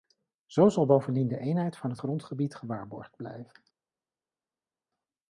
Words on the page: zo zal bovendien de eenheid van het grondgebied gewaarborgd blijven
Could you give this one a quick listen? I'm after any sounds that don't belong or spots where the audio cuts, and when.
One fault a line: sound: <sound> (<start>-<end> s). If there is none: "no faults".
no faults